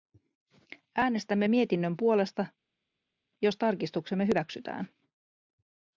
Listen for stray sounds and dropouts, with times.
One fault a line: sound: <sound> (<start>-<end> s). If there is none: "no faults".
no faults